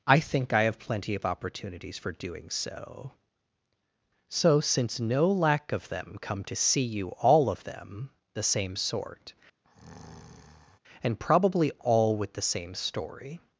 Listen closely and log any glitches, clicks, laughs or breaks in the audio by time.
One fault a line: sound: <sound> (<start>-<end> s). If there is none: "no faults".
sound: breath (9.6-10.8 s)